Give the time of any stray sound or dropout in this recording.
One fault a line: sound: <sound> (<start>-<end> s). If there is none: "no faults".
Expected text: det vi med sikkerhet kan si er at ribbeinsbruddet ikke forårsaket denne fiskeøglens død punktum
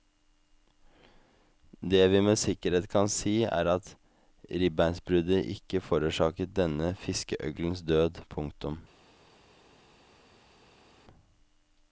no faults